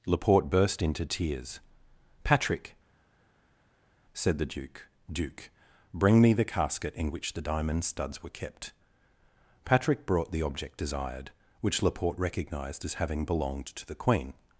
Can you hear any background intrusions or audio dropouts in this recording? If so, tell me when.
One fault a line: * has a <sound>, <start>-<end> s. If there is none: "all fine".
all fine